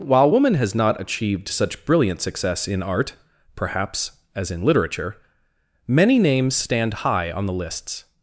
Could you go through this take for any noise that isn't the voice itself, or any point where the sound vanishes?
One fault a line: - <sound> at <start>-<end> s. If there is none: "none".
none